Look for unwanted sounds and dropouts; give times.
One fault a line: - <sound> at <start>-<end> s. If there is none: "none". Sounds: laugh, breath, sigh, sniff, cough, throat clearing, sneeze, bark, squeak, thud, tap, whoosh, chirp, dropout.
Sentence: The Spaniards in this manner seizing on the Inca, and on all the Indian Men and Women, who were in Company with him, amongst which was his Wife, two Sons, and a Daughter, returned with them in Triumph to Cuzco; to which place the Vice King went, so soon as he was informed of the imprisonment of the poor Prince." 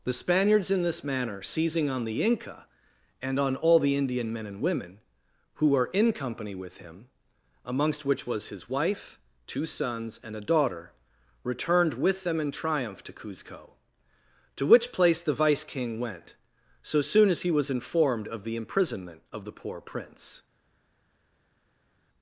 none